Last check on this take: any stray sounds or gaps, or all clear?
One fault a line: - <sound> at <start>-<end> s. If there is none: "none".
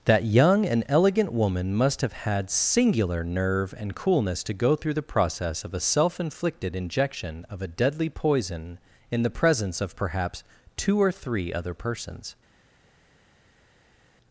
none